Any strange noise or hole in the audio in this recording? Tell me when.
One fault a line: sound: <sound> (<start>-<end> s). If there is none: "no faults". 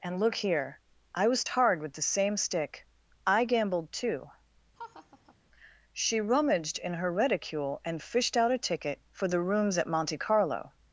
sound: laugh (4.8-5.4 s)